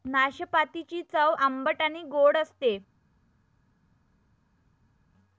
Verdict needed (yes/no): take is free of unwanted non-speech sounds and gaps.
yes